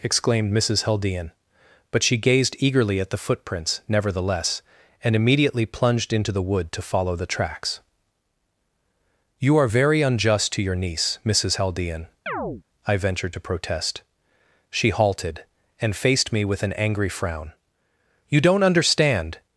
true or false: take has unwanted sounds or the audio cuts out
true